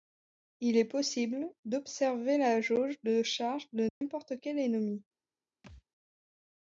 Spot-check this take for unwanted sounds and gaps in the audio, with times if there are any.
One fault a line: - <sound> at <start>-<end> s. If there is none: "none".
- dropout at 3.9-4.0 s
- thud at 5.6-5.8 s